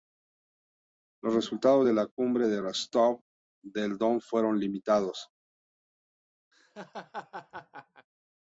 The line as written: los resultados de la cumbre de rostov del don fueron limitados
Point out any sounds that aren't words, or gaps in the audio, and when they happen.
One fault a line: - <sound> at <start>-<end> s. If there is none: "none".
- laugh at 6.5-8.1 s